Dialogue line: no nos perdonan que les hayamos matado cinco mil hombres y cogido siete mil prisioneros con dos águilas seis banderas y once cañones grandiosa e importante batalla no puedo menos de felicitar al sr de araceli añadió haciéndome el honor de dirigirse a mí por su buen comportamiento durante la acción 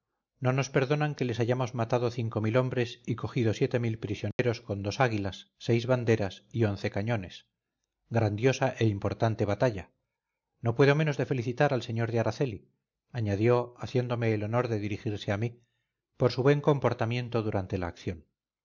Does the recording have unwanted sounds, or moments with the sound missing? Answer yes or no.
yes